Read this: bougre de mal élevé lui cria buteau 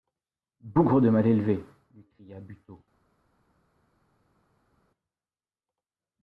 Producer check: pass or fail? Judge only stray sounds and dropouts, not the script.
pass